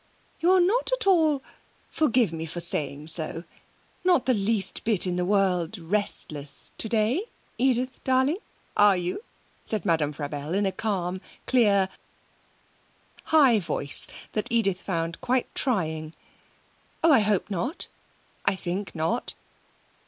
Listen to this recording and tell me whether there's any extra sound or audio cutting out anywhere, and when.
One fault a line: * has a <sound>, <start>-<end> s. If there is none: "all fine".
all fine